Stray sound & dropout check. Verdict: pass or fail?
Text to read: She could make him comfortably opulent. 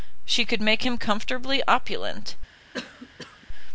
fail